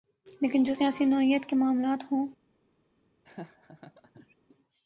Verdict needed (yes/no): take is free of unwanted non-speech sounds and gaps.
no